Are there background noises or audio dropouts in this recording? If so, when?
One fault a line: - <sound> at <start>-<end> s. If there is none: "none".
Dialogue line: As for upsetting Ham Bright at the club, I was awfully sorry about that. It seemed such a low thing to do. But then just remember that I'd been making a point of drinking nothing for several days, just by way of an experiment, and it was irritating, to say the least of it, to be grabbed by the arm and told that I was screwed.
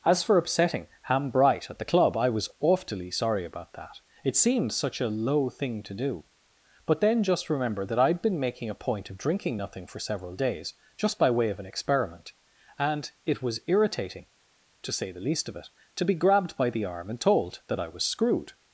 none